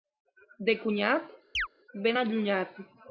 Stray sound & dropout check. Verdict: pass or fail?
fail